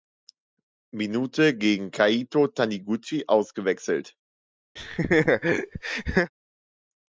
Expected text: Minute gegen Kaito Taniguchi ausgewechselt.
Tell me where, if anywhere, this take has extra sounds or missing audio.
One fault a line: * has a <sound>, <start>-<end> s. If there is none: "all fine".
* has a laugh, 4.8-6.3 s